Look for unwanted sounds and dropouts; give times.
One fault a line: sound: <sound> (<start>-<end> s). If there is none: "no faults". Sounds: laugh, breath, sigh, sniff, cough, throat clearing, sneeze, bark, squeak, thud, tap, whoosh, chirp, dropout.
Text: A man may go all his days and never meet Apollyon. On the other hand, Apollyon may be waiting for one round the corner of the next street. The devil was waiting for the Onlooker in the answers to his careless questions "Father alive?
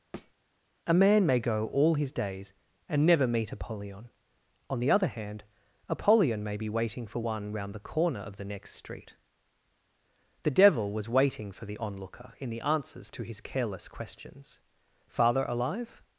sound: thud (0.1-0.3 s)